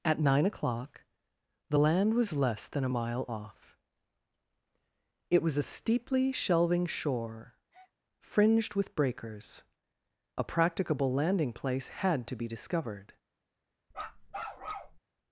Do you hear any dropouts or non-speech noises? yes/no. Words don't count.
yes